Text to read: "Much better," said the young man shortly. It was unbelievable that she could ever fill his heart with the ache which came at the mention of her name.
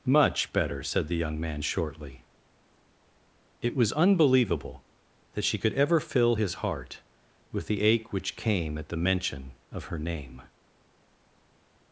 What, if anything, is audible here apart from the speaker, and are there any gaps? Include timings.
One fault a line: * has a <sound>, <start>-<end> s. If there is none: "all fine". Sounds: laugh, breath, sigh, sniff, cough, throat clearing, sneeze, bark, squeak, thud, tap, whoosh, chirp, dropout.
all fine